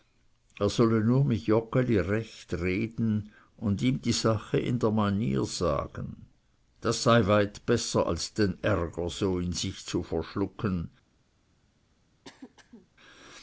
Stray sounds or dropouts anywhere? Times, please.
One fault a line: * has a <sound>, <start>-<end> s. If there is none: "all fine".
* has a throat clearing, 12.2-12.9 s